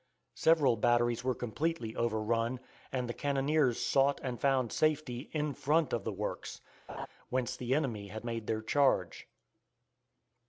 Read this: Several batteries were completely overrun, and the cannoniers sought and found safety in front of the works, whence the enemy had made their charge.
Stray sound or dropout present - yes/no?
yes